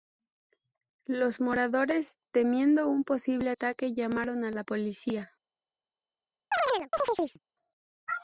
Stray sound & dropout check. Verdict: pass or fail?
fail